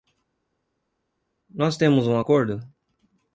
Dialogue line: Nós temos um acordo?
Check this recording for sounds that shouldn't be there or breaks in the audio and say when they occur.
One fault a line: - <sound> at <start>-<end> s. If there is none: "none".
none